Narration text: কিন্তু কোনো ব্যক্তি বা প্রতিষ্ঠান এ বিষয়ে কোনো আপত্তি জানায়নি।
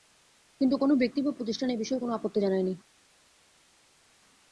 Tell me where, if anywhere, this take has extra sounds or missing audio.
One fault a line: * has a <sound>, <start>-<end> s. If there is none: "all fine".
all fine